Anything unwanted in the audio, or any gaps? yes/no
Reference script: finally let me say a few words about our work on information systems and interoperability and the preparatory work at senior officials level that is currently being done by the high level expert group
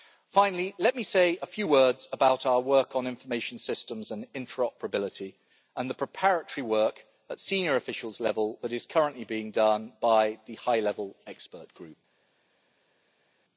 no